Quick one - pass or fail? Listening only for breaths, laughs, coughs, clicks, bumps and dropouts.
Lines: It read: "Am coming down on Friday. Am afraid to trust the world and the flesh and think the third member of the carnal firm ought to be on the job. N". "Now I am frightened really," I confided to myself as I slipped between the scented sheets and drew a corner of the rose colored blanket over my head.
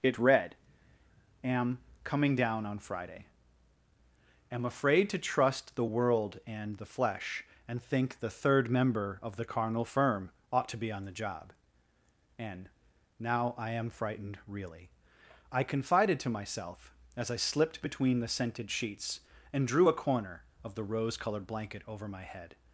pass